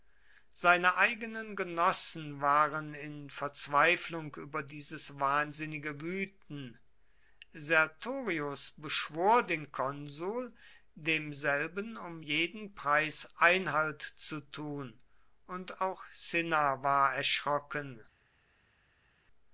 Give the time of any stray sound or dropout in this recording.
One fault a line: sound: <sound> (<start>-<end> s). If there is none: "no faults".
no faults